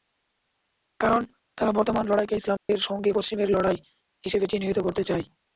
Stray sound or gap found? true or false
true